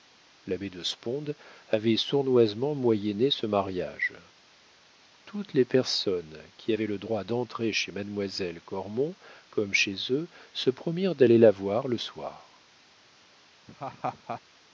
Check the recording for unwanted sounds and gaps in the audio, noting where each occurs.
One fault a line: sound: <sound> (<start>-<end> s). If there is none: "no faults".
sound: laugh (13.7-14.4 s)